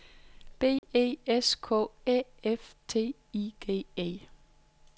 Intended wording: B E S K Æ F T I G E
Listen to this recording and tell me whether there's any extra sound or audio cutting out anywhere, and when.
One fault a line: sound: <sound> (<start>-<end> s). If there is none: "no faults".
sound: dropout (0.8-0.8 s)